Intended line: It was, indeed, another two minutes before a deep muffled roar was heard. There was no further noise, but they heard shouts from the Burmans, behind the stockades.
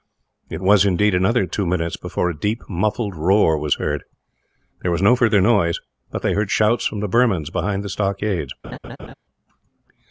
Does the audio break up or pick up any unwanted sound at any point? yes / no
yes